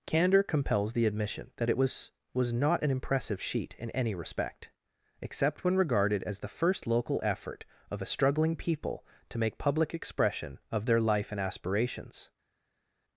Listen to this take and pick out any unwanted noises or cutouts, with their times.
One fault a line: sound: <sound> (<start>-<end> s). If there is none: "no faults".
no faults